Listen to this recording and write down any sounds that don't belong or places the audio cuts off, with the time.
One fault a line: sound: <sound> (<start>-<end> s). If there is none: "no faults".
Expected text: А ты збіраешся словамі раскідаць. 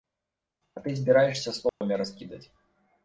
sound: dropout (1.7-1.8 s)